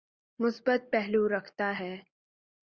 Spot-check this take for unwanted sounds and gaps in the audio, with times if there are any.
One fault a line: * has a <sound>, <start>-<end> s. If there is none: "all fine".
all fine